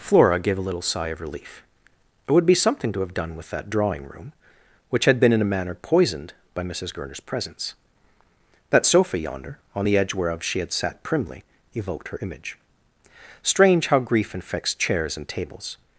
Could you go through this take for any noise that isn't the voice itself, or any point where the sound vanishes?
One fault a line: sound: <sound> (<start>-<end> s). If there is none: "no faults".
no faults